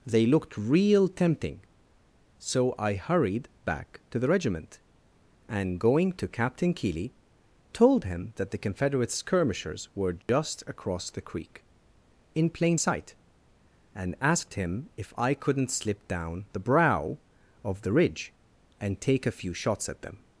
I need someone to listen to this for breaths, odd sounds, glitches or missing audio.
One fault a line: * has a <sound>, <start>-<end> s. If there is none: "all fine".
* has a dropout, 10.2-10.3 s